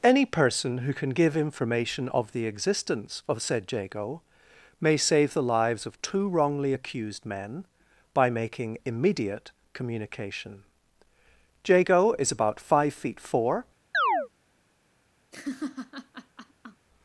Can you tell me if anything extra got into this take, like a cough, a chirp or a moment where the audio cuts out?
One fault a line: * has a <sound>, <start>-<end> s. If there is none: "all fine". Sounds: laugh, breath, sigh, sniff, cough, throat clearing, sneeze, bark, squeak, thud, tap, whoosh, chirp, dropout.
* has a chirp, 13.9-14.3 s
* has a laugh, 15.3-16.9 s